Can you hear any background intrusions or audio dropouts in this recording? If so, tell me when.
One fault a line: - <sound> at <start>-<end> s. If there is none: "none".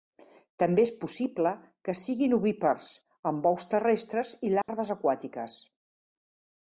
- dropout at 4.6-4.7 s